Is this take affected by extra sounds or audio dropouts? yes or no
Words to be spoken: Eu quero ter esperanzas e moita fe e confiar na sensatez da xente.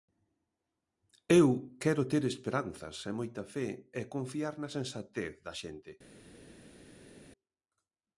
no